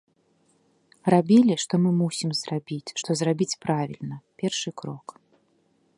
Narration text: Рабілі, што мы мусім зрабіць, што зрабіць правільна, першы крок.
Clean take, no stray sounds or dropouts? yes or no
yes